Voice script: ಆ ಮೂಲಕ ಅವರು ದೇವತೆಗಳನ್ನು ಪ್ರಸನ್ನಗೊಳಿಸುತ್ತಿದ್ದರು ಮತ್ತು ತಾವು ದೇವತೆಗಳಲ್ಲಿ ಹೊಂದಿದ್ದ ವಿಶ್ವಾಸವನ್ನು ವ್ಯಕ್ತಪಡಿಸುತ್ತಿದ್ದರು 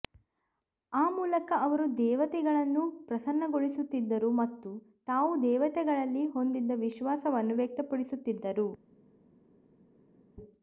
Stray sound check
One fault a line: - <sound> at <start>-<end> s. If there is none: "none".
none